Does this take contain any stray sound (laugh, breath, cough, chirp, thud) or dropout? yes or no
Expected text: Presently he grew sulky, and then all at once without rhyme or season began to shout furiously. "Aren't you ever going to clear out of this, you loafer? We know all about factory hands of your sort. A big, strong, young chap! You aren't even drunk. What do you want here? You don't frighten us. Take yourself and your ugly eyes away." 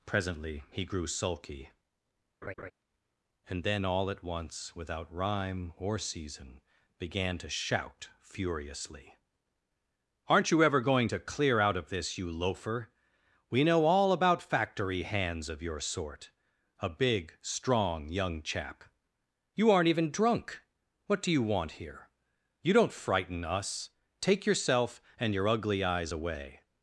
yes